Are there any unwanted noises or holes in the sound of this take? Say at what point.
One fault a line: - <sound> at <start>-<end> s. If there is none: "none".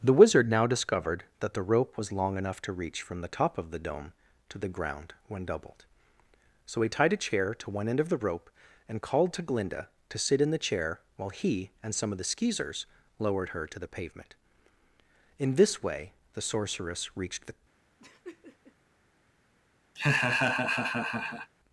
- laugh at 18.0-18.8 s
- laugh at 20.0-21.5 s